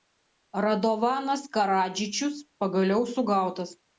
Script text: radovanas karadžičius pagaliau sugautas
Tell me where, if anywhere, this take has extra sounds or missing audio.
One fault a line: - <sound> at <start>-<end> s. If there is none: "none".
none